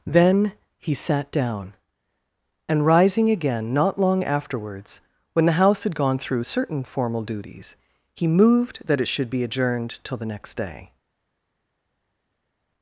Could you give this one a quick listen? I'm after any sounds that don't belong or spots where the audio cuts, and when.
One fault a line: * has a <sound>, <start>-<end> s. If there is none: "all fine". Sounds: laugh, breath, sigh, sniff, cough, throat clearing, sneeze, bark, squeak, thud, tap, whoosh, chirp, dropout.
all fine